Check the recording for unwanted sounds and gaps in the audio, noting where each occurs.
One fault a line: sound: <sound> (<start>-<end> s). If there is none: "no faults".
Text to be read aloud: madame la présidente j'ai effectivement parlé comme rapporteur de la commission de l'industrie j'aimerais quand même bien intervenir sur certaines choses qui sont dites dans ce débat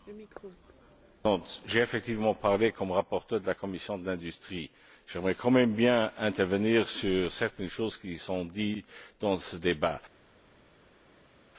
no faults